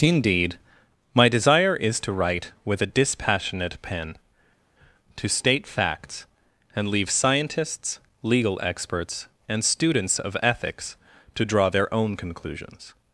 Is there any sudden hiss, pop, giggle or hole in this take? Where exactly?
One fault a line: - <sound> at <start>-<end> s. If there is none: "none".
none